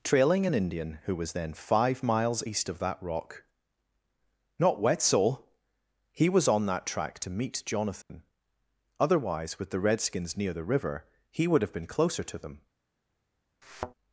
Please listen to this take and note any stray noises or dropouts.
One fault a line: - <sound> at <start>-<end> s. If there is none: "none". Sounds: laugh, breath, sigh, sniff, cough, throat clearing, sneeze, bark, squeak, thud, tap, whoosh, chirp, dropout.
- dropout at 8.0-8.1 s
- thud at 13.6-13.9 s